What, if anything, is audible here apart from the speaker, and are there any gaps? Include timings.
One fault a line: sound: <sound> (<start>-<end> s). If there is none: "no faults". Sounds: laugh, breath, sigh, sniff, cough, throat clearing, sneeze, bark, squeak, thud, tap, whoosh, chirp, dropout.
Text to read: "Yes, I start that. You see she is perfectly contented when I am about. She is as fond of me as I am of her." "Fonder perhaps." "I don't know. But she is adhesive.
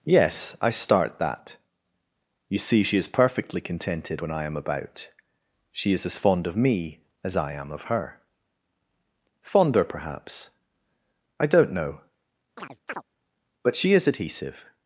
sound: chirp (12.6-13.0 s)